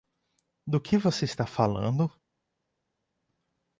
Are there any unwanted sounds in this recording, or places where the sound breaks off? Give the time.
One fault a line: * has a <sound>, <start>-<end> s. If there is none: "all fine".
all fine